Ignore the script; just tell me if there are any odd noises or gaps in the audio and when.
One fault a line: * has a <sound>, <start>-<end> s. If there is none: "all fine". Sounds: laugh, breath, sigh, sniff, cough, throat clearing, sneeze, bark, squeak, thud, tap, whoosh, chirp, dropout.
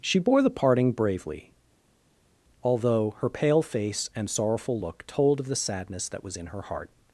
all fine